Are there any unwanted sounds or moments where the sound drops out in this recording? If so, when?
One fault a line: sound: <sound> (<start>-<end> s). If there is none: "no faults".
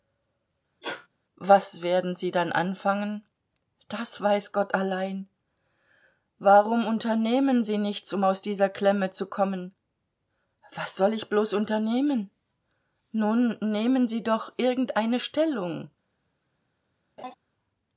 sound: sneeze (0.8-1.1 s)
sound: laugh (17.2-17.4 s)